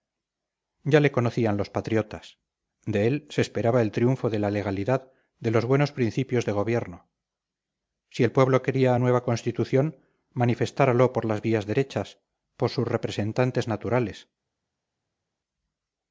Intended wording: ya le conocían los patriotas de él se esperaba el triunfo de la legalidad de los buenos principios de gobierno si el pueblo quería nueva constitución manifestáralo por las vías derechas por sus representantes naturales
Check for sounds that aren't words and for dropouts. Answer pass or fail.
pass